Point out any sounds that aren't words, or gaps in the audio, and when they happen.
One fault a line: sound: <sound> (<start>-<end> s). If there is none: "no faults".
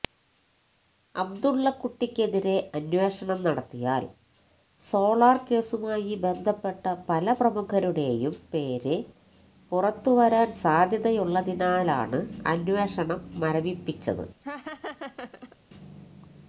sound: laugh (14.4-15.6 s)